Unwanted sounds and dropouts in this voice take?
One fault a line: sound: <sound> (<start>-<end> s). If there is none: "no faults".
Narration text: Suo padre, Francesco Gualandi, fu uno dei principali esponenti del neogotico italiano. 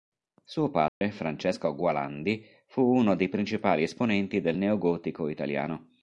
sound: dropout (0.9-1.0 s)